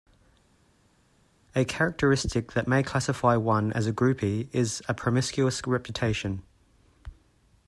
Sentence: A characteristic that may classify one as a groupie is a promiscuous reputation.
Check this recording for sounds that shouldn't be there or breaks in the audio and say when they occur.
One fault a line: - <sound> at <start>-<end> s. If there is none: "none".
none